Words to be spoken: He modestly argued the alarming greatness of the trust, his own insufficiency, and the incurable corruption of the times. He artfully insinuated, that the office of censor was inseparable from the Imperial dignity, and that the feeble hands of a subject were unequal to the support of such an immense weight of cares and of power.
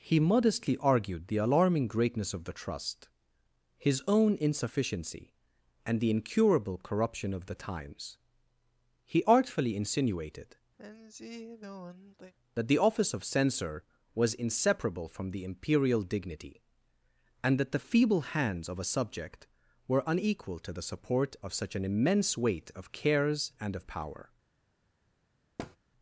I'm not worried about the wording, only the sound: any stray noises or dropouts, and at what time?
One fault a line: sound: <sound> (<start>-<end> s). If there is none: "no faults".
sound: sigh (10.8-12.3 s)
sound: thud (25.6-25.8 s)